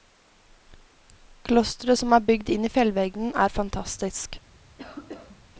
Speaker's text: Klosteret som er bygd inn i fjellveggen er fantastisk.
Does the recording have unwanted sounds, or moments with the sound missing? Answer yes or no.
yes